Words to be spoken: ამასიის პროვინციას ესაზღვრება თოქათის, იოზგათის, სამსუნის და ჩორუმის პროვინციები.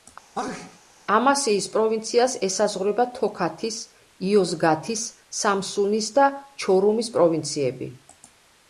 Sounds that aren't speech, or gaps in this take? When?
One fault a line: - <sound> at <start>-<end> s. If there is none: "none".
- sneeze at 0.3-0.8 s